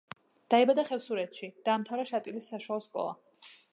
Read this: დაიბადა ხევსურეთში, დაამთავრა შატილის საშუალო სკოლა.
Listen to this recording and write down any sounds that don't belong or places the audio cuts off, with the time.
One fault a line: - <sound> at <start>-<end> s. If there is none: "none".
none